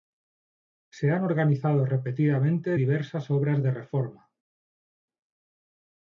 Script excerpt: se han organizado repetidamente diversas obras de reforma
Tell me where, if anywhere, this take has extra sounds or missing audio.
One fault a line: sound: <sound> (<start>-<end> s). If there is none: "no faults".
no faults